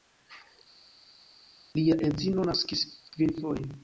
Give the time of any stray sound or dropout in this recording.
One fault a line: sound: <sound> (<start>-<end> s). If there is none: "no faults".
no faults